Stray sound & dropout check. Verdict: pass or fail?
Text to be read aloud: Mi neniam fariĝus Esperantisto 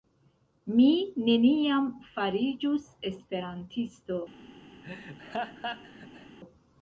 fail